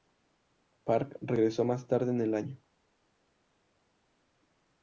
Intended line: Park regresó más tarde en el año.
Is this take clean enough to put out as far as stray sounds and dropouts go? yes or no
yes